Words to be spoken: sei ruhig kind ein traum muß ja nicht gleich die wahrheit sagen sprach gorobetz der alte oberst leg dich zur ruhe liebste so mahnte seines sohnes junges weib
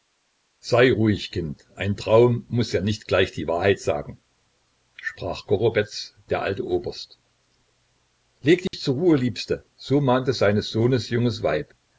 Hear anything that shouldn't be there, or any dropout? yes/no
yes